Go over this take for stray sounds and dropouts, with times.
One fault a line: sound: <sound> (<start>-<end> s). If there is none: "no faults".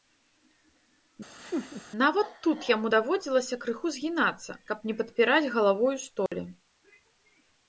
sound: laugh (1.4-1.8 s)
sound: dropout (6.3-6.3 s)